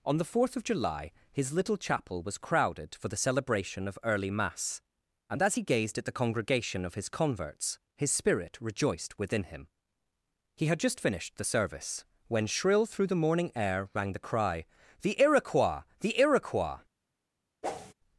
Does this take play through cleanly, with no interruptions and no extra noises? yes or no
no